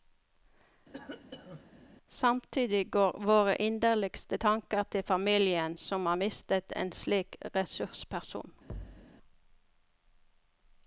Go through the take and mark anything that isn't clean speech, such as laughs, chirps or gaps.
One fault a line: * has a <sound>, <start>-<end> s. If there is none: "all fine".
* has a cough, 0.9-1.8 s
* has a thud, 8.7-9.1 s